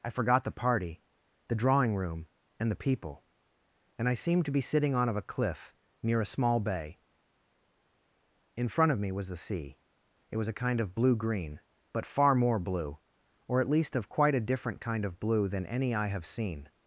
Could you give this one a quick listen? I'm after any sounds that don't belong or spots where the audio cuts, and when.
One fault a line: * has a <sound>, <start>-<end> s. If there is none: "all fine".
all fine